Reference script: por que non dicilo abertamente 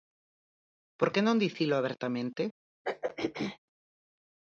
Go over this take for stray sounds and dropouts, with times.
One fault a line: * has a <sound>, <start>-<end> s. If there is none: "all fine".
* has a throat clearing, 2.8-3.6 s